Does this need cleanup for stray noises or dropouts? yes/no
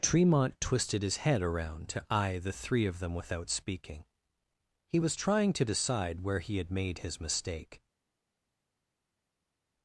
no